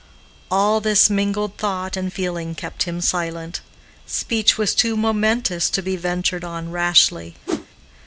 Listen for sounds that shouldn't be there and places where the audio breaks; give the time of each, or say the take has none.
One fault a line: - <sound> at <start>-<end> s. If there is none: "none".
- whoosh at 7.5-7.7 s